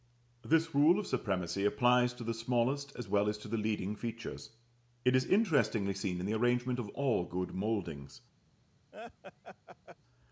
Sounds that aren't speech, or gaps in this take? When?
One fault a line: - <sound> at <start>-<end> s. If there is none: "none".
- laugh at 8.9-10.0 s